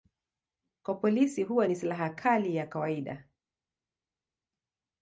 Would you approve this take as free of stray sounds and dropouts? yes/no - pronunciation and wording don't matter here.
yes